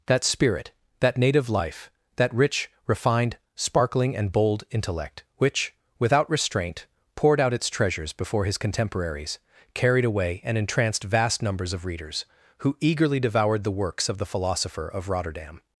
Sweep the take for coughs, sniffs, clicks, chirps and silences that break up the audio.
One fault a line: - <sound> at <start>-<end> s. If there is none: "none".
none